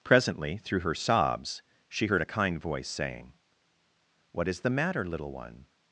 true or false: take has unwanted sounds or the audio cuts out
false